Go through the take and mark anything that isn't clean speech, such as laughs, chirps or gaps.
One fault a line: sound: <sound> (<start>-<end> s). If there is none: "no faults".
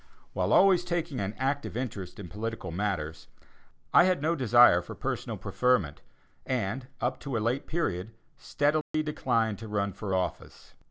sound: dropout (8.8-8.9 s)